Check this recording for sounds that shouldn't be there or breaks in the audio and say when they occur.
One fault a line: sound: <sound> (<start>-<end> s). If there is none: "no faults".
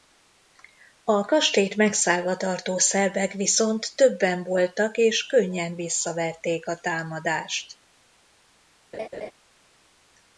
sound: laugh (8.9-9.3 s)